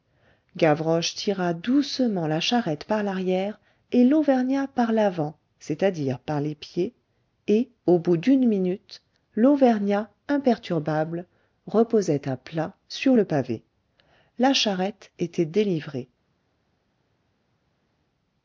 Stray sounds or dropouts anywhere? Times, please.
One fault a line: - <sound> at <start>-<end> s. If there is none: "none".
none